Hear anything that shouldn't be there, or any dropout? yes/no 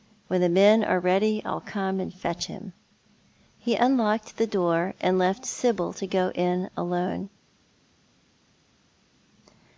no